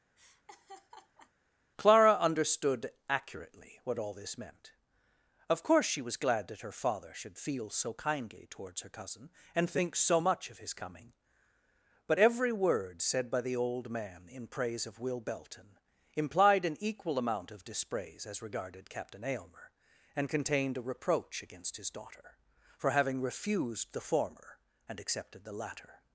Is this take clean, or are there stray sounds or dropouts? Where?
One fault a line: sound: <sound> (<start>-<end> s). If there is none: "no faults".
sound: laugh (0.2-1.3 s)